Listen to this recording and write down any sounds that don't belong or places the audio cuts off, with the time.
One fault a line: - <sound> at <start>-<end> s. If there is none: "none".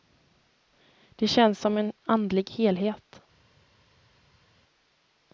none